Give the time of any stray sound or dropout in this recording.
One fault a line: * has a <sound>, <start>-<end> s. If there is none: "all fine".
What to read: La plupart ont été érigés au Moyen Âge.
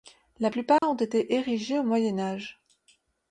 * has a dropout, 0.8-0.8 s